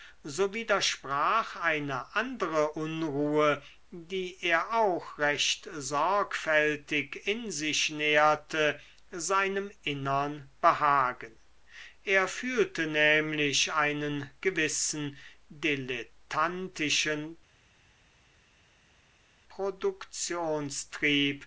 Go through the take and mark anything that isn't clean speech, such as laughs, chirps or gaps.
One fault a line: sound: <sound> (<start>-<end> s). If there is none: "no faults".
no faults